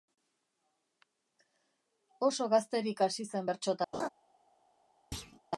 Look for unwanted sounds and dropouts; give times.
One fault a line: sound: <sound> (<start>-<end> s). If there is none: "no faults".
sound: laugh (3.9-4.1 s)
sound: thud (5.1-5.4 s)